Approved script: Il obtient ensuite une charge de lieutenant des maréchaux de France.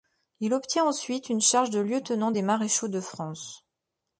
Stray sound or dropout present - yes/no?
no